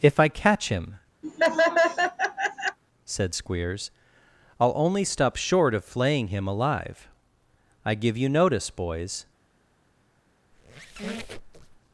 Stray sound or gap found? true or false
true